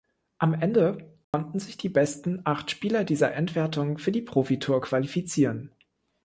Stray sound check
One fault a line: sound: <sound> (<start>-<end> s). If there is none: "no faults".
sound: dropout (1.2-1.3 s)